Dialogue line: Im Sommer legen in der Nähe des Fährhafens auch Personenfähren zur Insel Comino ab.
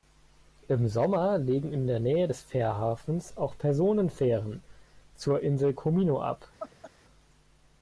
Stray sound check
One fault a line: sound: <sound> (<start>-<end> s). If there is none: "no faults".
sound: laugh (6.6-6.9 s)